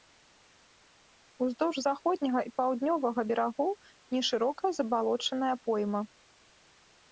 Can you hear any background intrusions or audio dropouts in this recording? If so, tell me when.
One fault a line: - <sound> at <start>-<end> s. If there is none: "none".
none